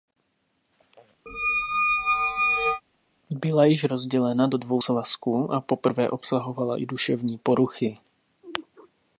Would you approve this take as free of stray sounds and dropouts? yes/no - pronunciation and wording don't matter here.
no